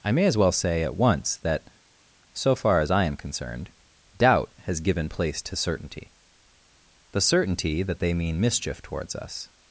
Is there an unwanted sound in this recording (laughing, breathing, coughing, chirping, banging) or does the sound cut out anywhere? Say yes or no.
no